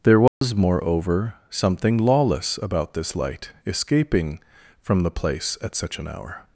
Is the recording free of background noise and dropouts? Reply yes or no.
no